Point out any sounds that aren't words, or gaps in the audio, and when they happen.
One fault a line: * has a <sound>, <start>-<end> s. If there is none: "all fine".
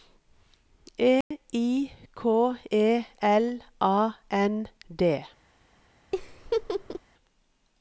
* has a dropout, 1.2-1.3 s
* has a laugh, 6.1-7.0 s